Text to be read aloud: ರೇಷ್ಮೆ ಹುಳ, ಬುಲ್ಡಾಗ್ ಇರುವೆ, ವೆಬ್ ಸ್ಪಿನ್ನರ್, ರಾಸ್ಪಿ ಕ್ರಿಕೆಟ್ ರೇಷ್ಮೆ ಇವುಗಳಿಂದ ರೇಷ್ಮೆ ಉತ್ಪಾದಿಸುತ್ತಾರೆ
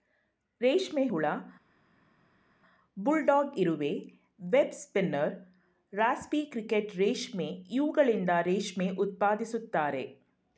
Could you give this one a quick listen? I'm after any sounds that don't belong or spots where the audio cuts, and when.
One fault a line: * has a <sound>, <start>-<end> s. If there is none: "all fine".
all fine